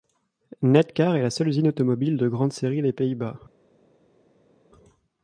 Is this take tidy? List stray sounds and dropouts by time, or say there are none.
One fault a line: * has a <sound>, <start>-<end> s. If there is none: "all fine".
all fine